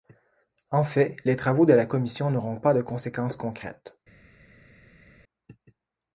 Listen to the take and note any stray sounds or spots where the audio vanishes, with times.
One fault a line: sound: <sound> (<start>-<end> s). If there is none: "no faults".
no faults